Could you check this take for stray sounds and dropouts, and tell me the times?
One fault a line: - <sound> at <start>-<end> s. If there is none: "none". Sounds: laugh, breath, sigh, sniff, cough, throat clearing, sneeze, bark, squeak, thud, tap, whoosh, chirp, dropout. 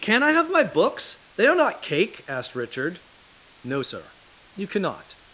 none